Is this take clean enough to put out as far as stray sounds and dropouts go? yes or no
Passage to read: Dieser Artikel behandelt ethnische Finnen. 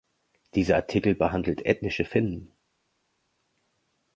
yes